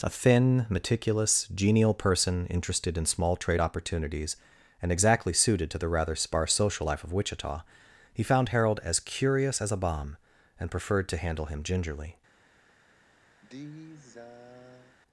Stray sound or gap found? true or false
true